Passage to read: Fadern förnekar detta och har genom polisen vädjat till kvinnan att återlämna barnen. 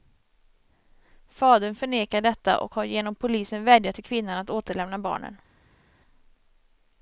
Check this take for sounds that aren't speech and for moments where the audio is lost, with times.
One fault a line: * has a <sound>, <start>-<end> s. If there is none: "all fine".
all fine